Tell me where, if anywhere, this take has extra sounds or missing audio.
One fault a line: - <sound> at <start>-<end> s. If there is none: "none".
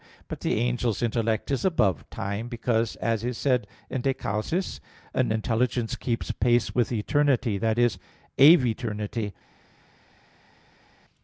none